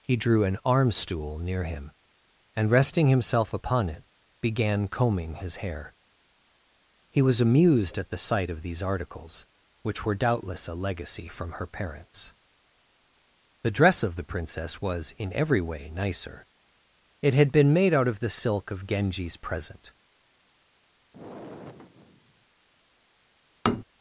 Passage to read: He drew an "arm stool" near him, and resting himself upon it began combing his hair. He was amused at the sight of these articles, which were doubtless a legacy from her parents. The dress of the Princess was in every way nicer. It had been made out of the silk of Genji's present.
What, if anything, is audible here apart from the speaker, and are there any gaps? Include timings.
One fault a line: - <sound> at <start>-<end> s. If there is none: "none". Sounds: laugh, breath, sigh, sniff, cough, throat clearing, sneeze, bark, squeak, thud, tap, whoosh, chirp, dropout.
- sigh at 21.1-22.5 s
- tap at 23.7-23.8 s